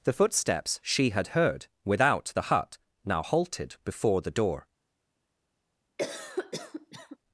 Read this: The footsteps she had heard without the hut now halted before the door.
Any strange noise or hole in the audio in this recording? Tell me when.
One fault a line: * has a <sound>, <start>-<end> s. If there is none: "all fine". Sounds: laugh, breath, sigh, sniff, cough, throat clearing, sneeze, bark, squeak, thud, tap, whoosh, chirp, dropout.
* has a cough, 6.0-7.2 s